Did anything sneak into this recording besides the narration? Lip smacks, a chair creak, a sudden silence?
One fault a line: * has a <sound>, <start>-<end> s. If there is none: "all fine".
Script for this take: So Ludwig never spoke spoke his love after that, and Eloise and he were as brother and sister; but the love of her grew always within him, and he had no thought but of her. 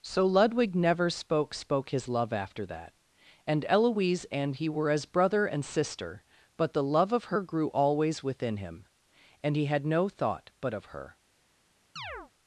* has a chirp, 12.0-12.3 s